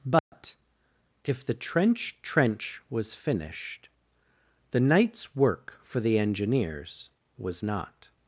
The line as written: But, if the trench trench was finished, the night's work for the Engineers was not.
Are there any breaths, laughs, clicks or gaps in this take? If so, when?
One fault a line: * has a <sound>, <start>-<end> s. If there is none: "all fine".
* has a dropout, 0.2-0.3 s